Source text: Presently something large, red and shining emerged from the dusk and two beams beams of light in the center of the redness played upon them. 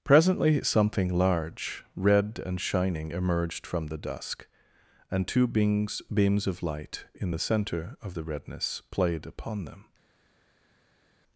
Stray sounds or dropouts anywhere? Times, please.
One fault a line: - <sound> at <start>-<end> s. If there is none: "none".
none